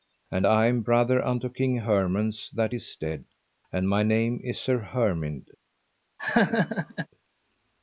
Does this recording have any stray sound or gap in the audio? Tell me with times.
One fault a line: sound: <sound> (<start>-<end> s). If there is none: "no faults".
sound: laugh (6.2-7.1 s)